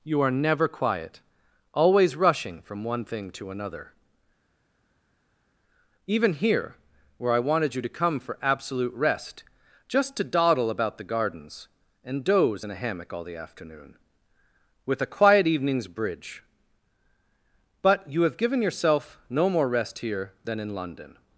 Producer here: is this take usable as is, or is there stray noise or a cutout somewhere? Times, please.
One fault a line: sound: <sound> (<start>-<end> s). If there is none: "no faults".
no faults